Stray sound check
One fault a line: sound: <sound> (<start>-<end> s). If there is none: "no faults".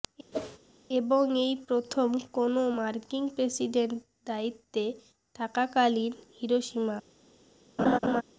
sound: whoosh (0.3-0.6 s)
sound: laugh (7.8-8.2 s)